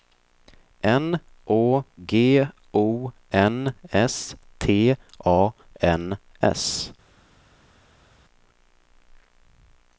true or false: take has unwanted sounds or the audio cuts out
false